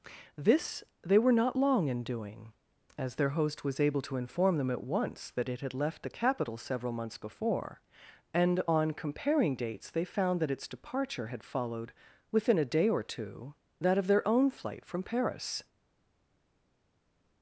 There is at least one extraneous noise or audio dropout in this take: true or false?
false